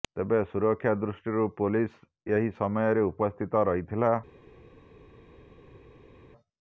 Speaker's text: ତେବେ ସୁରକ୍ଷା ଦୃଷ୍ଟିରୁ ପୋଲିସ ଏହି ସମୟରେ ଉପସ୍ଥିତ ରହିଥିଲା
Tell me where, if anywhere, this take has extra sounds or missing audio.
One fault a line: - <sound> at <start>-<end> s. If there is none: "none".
none